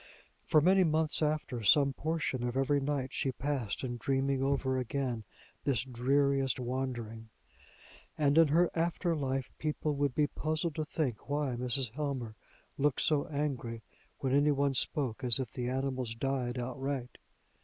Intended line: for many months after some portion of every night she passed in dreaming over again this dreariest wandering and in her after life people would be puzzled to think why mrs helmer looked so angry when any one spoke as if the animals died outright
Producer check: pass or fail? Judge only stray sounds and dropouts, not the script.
pass